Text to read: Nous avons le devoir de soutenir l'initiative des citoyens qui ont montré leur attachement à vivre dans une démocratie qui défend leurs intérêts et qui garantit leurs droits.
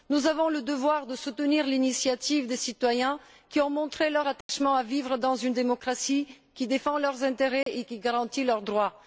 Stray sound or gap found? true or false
true